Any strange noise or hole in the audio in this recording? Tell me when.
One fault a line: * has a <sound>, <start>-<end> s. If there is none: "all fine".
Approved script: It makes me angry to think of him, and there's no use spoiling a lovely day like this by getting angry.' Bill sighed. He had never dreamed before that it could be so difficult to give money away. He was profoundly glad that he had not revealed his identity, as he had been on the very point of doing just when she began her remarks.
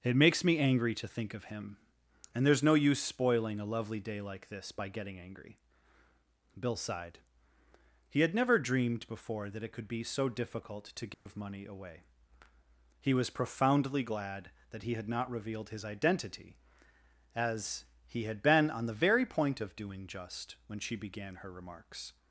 * has a dropout, 11.1-11.3 s